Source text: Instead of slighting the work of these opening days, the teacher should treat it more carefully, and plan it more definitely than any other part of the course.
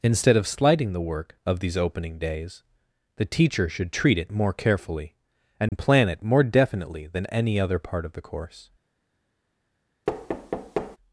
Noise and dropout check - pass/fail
fail